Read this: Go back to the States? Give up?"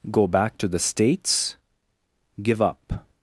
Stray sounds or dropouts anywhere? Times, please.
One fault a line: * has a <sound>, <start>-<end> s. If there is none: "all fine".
all fine